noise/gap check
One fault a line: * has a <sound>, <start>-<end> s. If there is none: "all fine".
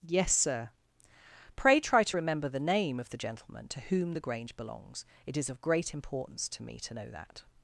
all fine